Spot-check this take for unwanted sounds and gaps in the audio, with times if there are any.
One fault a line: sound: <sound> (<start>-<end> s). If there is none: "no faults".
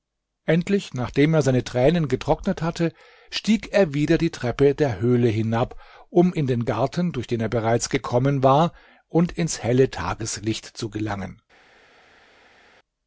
no faults